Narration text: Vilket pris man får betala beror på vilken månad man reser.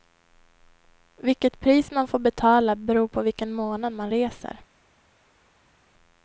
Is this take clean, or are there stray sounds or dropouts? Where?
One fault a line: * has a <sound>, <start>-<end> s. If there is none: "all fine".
all fine